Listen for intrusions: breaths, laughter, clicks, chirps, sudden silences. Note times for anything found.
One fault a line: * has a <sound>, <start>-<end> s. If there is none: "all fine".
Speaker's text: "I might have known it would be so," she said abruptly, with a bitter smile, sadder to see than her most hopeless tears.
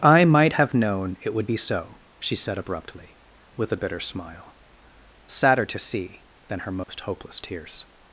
* has a dropout, 6.8-6.9 s